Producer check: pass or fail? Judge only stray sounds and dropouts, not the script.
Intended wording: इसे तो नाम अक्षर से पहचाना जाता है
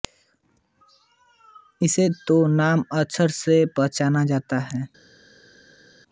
pass